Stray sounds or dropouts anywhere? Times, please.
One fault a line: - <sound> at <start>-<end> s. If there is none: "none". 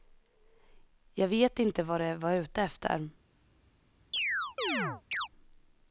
- chirp at 4.1-5.3 s